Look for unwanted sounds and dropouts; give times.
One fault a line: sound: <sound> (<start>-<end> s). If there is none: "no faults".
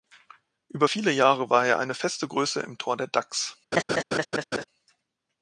sound: laugh (3.7-4.6 s)